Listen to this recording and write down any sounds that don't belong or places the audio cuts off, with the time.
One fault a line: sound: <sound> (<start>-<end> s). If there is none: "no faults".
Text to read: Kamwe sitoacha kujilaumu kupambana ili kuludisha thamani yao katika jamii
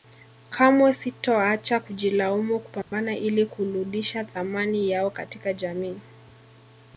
sound: dropout (2.8-2.9 s)